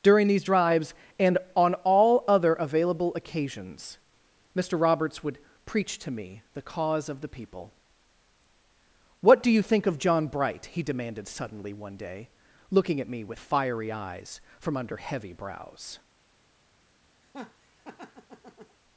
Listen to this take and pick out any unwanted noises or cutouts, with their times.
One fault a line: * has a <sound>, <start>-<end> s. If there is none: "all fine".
* has a laugh, 17.2-18.8 s